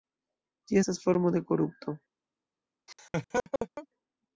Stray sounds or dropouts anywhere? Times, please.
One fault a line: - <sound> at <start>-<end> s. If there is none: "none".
- laugh at 2.9-3.9 s